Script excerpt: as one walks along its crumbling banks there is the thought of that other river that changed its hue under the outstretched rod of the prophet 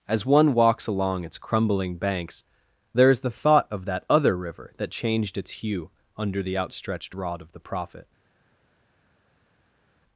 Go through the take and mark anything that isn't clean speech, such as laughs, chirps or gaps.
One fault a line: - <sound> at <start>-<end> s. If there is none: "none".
none